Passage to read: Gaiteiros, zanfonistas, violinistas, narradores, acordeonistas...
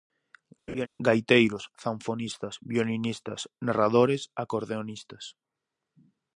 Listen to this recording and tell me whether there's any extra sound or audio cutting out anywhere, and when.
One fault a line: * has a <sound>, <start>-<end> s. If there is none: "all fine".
* has a laugh, 0.7-0.9 s